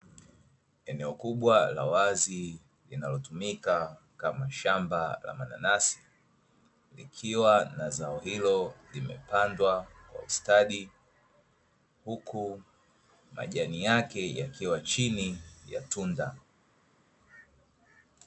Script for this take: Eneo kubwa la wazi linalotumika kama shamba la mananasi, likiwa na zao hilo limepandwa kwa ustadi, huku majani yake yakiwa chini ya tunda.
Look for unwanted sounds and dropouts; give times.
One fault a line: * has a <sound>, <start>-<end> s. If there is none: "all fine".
all fine